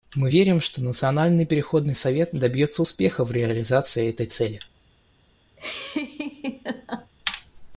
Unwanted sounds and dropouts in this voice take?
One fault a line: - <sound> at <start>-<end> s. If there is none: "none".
- laugh at 5.6-7.1 s